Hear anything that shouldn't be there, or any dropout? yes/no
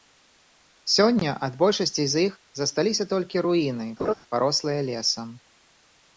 yes